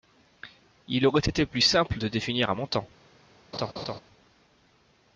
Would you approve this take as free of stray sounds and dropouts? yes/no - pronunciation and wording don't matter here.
no